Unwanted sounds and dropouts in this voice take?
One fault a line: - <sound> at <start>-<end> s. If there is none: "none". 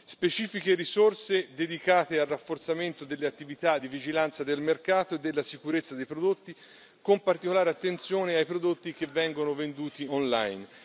none